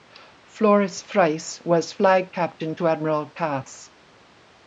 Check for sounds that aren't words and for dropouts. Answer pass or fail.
pass